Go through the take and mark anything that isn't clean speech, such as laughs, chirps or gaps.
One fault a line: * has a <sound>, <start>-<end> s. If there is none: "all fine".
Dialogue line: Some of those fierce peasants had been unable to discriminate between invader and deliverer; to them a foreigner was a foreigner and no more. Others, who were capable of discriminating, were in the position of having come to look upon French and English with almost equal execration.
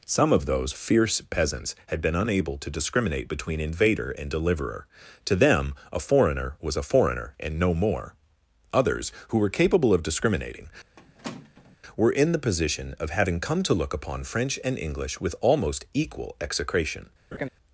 * has a squeak, 11.0-11.8 s
* has a laugh, 17.3-17.5 s